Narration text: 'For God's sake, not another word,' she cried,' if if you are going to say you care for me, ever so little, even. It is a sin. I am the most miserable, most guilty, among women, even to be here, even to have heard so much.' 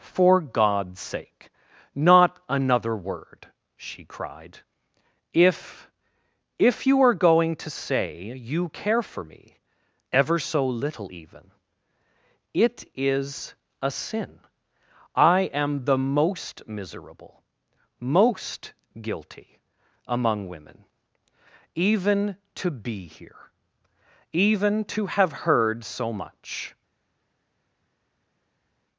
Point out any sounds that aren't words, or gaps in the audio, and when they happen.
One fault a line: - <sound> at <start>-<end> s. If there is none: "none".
none